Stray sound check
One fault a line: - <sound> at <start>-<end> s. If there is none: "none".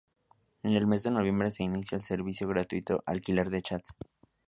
none